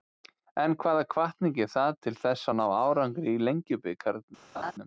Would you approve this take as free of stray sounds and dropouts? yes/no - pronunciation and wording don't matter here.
no